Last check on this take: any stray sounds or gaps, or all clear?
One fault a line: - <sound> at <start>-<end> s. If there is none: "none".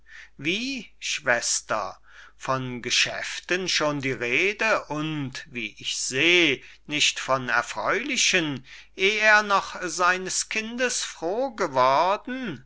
none